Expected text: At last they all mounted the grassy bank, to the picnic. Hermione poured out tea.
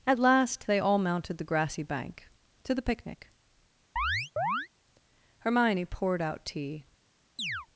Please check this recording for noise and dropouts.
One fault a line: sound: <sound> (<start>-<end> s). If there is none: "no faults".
sound: chirp (4.0-4.7 s)
sound: chirp (7.4-7.7 s)